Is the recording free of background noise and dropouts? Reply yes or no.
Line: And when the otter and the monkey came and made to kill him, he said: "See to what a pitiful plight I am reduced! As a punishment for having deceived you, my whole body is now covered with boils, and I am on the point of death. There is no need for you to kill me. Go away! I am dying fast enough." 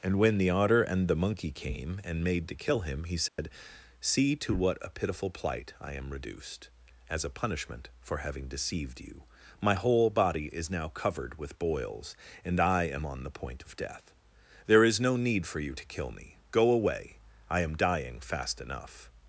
no